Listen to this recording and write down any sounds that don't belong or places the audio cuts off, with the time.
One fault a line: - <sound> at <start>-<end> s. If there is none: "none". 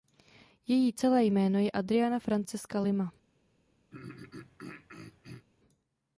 - throat clearing at 3.9-5.5 s